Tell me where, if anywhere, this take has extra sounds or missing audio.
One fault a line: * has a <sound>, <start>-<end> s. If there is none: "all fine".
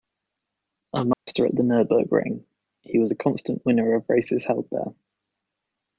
* has a dropout, 1.1-1.3 s